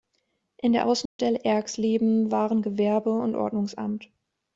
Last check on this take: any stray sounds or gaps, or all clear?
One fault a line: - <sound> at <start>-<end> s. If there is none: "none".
- dropout at 1.1-1.2 s